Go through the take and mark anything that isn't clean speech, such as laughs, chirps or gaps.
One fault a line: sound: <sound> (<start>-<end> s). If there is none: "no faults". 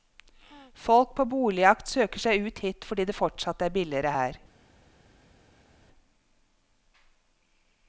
no faults